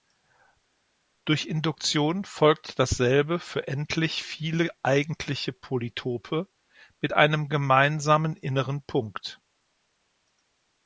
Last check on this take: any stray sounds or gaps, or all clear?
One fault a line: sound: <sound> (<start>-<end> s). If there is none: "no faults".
no faults